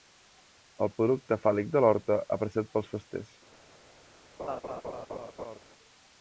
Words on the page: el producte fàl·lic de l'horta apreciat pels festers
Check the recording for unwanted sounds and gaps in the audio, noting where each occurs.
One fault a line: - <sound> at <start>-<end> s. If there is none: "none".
- laugh at 4.4-5.6 s